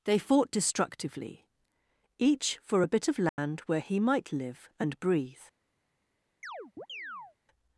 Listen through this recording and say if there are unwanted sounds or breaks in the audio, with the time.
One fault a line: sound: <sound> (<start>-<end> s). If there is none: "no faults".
sound: dropout (3.3-3.4 s)
sound: chirp (6.4-7.4 s)